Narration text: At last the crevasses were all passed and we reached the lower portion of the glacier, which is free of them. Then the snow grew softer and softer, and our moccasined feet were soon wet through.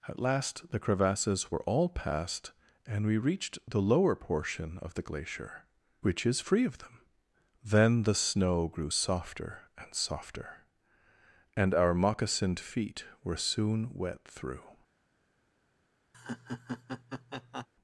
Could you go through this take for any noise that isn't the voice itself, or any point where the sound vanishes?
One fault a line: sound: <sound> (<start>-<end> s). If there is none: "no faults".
sound: laugh (16.1-17.7 s)